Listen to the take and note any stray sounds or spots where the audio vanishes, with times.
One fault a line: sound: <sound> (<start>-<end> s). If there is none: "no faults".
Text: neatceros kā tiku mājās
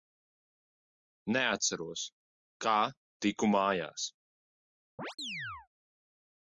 sound: chirp (5.0-5.7 s)